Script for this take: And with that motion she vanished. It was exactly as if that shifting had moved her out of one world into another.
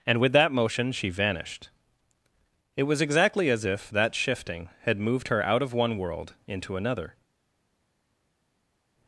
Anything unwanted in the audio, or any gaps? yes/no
no